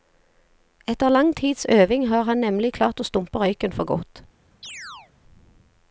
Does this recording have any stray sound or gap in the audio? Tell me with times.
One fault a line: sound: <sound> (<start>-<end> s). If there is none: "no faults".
sound: chirp (4.6-5.1 s)